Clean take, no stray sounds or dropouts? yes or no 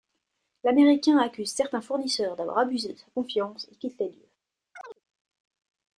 no